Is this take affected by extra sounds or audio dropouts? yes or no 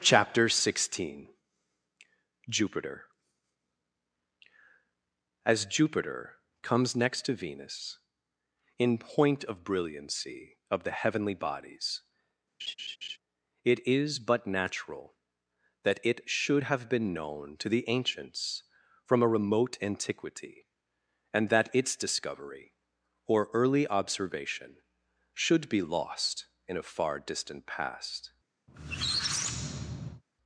yes